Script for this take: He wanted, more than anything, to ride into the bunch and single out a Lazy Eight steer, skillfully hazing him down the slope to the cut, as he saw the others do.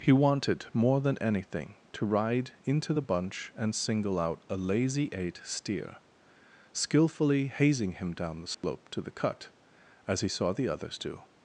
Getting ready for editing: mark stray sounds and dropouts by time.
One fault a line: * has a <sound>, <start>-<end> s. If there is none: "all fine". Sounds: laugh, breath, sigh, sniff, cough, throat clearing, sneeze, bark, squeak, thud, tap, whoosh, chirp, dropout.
* has a dropout, 8.5-8.6 s